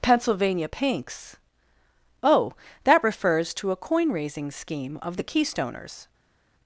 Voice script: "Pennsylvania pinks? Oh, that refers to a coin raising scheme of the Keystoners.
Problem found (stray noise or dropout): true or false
false